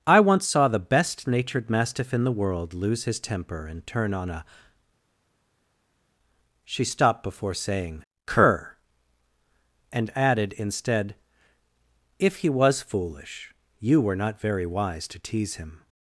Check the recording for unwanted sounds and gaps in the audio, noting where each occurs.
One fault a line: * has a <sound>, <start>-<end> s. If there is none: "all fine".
all fine